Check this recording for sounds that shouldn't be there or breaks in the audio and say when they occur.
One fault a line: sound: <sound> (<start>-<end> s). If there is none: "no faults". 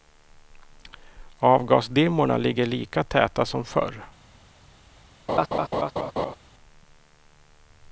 sound: laugh (5.3-6.4 s)